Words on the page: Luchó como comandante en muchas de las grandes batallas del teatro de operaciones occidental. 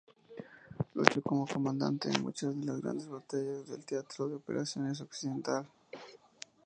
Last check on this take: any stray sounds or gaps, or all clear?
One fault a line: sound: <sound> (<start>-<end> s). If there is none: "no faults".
sound: cough (5.9-6.2 s)